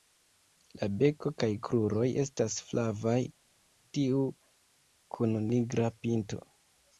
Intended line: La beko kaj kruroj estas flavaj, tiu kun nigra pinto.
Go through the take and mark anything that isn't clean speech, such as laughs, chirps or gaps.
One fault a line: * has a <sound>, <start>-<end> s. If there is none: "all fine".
all fine